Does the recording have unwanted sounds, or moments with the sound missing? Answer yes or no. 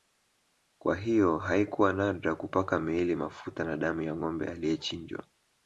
no